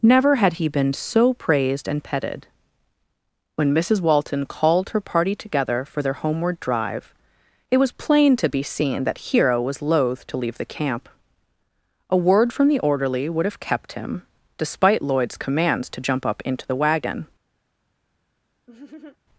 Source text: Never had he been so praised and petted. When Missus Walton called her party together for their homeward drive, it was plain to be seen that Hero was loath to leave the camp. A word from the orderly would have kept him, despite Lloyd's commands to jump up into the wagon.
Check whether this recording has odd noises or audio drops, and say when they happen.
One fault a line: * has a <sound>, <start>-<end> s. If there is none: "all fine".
* has a laugh, 18.7-19.2 s